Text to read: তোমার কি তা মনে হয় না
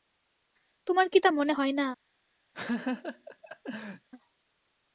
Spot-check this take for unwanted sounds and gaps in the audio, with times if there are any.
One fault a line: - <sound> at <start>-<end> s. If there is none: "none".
- laugh at 2.5-4.1 s